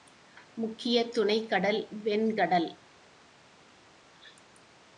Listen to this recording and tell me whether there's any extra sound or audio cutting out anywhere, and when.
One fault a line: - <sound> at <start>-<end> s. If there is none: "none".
none